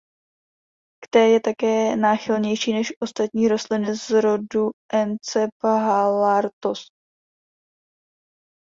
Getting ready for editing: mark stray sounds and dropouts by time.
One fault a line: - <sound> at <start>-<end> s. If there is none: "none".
none